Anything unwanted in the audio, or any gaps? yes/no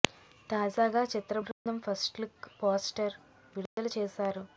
yes